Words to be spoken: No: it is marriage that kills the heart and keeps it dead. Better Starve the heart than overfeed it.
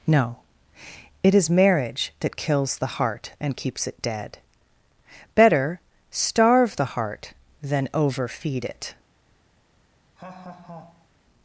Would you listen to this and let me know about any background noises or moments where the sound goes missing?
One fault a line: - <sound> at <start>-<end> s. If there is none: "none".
- laugh at 10.2-11.1 s